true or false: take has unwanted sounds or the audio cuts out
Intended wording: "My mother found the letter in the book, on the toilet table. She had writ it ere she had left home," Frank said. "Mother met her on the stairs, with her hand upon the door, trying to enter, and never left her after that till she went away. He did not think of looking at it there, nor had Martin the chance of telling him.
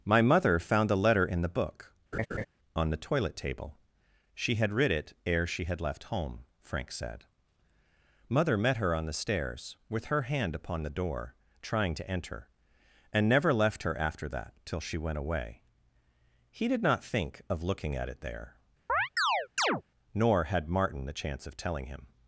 true